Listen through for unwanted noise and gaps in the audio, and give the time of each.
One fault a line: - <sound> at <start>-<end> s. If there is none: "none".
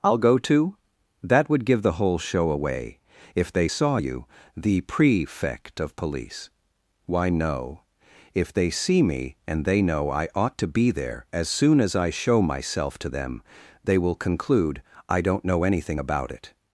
none